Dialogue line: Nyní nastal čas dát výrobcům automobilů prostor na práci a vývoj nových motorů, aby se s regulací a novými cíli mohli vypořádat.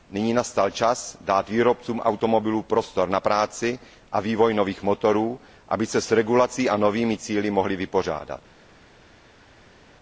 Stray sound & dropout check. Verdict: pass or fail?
pass